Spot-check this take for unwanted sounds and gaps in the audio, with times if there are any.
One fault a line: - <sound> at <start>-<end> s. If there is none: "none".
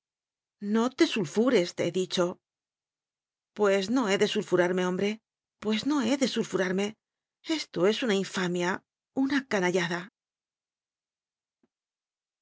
none